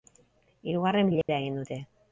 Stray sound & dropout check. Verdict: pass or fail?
fail